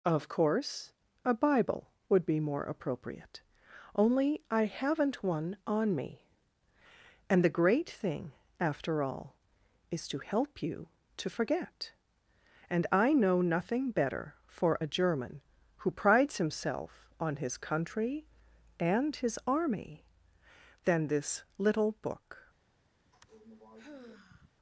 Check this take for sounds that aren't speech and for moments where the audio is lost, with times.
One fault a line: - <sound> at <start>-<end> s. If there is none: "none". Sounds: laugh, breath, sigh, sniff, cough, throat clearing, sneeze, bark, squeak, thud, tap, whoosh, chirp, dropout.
- sigh at 23.0-24.5 s